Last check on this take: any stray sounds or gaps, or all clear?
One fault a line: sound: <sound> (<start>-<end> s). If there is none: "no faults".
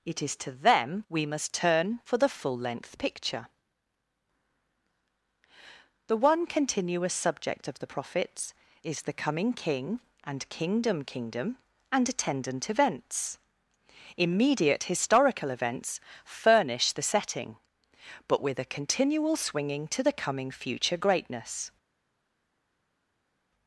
no faults